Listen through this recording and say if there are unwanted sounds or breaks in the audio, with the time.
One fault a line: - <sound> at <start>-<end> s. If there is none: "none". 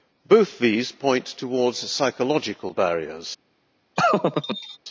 - laugh at 4.0-4.8 s